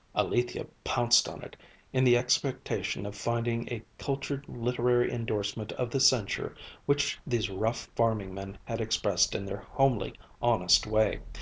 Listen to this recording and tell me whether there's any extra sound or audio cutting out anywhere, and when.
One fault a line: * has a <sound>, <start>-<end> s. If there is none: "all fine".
all fine